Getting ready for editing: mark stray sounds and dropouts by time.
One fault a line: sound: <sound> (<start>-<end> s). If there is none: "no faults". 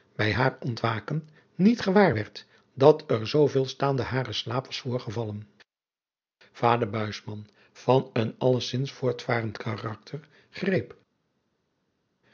no faults